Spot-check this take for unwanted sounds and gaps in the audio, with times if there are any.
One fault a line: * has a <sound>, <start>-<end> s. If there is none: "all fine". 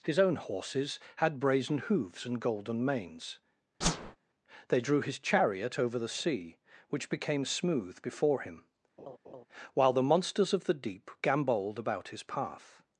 * has a whoosh, 3.8-4.2 s
* has a laugh, 9.0-9.5 s